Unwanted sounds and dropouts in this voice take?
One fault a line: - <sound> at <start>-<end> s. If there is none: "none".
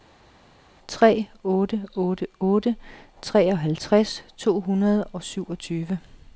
none